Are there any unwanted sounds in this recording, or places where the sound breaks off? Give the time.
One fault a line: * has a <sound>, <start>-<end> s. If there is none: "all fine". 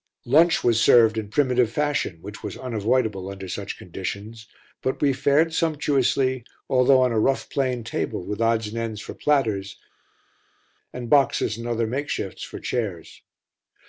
all fine